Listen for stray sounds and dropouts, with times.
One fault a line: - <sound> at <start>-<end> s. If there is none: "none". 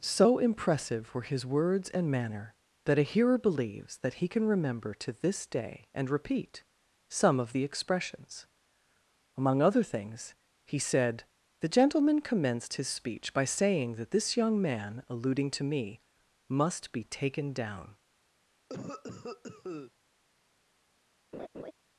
- cough at 18.7-19.9 s
- laugh at 21.3-21.7 s